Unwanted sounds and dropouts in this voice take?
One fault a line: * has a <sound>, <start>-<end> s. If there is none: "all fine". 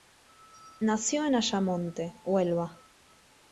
all fine